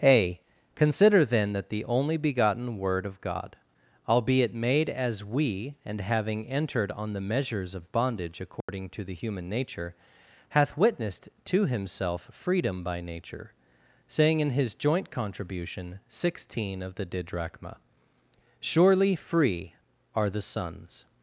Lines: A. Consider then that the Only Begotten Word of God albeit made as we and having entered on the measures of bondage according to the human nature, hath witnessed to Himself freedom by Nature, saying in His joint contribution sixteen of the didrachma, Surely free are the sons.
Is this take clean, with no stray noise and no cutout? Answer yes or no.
no